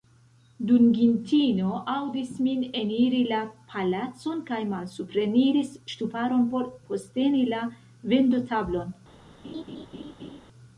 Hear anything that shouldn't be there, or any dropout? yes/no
yes